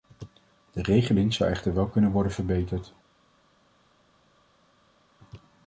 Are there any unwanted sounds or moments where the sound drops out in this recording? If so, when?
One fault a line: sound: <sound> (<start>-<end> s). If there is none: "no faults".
no faults